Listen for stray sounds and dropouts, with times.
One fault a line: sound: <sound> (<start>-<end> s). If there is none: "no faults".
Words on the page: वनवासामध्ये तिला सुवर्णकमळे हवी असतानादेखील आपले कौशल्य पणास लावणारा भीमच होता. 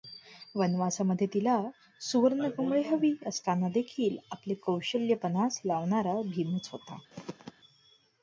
sound: throat clearing (7.1-7.5 s)